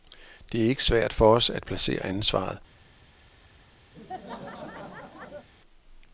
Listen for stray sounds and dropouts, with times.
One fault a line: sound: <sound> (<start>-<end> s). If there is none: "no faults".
sound: laugh (3.9-5.5 s)